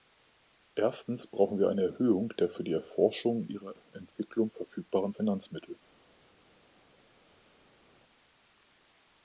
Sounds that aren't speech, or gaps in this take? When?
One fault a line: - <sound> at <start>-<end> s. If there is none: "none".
none